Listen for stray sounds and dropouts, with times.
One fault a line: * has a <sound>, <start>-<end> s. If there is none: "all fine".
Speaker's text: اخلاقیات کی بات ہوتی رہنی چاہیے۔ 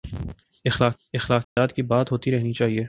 * has a dropout, 1.4-1.6 s